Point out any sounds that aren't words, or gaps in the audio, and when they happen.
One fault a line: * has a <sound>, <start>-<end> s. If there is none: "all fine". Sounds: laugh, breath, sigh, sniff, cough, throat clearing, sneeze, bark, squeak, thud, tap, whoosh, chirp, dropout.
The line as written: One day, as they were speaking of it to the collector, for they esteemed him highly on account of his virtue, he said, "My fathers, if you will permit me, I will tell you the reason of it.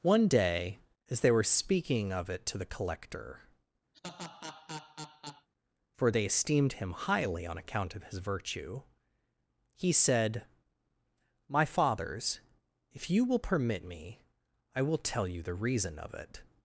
* has a laugh, 3.9-5.5 s